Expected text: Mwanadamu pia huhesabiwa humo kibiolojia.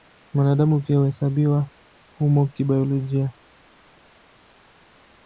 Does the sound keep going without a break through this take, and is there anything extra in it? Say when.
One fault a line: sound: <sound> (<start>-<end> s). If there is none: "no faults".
no faults